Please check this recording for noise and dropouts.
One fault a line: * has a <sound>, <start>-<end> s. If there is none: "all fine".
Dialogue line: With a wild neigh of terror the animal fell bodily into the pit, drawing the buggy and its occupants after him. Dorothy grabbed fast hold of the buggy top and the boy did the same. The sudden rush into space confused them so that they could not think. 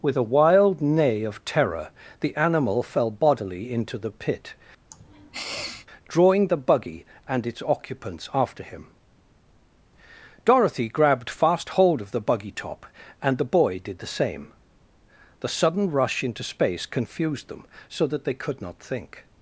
* has a sniff, 4.9-5.9 s